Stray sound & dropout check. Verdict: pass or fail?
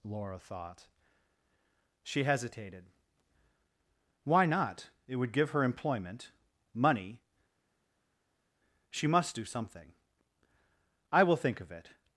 pass